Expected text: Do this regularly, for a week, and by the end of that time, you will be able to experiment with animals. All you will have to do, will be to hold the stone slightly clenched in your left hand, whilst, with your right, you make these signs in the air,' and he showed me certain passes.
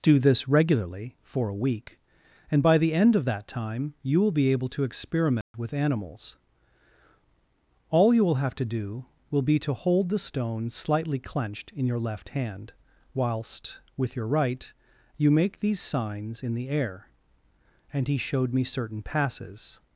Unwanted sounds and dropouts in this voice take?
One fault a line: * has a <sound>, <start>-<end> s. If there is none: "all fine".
* has a dropout, 5.4-5.5 s